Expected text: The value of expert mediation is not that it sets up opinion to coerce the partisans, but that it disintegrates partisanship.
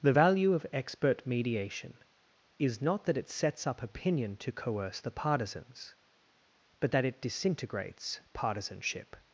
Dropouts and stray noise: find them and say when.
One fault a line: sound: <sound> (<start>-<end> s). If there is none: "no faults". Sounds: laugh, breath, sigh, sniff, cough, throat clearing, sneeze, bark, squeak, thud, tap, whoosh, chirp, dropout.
no faults